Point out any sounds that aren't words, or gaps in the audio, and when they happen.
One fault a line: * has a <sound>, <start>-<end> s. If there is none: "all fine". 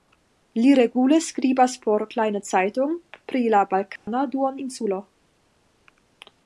* has a dropout, 4.0-4.1 s